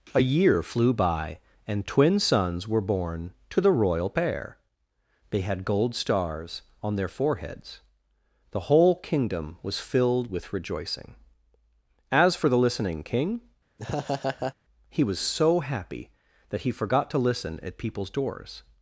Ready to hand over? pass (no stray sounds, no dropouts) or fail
fail